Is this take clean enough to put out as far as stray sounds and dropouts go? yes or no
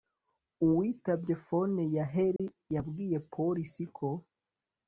no